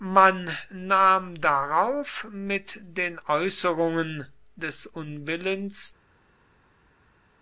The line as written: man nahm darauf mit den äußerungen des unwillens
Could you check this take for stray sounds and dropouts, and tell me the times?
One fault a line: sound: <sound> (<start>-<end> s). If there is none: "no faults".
no faults